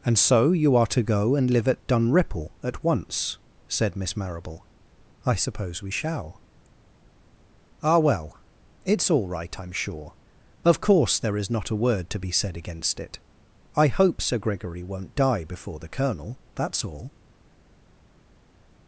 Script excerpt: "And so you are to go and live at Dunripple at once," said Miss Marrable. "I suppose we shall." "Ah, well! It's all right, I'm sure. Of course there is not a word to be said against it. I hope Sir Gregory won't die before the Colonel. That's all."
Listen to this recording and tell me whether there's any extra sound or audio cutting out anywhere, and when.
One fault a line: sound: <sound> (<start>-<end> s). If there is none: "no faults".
no faults